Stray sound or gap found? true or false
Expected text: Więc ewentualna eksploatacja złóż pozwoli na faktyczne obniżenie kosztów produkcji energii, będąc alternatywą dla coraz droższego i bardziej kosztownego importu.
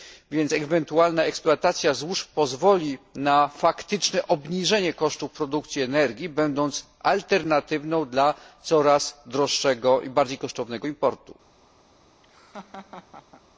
true